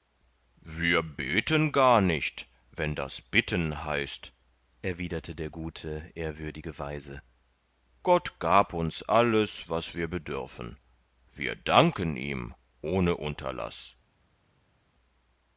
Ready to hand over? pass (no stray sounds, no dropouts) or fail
pass